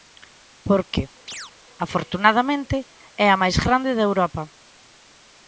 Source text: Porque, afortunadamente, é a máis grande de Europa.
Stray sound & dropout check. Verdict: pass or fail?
fail